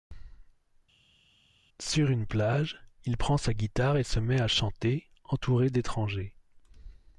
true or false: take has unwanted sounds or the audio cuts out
false